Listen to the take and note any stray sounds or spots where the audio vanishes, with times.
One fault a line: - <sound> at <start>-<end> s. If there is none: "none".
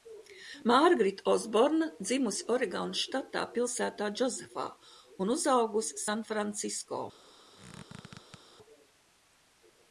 - squeak at 7.5-8.4 s